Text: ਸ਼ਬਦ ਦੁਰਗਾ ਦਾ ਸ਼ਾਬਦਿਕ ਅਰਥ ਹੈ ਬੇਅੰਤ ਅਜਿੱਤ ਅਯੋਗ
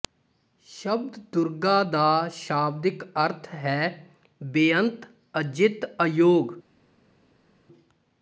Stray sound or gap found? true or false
false